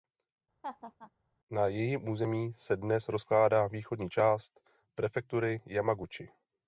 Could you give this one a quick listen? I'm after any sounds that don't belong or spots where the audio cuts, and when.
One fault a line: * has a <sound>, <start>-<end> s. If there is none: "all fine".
* has a laugh, 0.6-1.1 s